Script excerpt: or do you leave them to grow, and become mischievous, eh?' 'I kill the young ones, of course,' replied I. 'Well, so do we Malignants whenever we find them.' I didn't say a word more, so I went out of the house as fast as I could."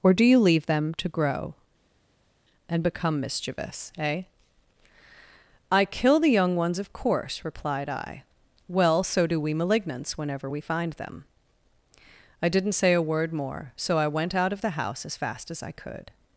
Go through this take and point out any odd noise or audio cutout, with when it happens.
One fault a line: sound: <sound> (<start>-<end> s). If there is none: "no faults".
no faults